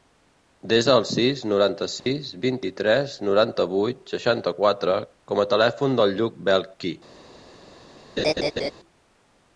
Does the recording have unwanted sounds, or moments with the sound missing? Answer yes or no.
yes